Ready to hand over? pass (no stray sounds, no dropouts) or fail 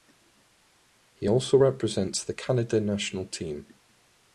pass